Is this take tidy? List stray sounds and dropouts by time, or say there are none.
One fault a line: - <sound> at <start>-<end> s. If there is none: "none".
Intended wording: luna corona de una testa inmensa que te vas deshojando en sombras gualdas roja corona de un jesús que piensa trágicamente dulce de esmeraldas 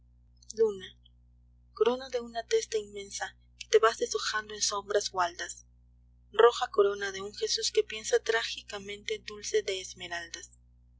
none